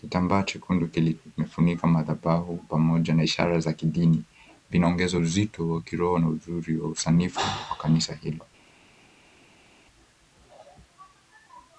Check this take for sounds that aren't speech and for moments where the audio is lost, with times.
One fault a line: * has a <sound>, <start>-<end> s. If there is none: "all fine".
all fine